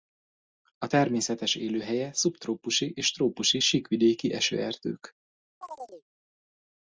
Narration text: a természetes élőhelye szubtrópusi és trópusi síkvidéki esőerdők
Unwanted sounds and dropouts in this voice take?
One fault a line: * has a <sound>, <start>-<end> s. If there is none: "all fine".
* has a chirp, 5.6-6.1 s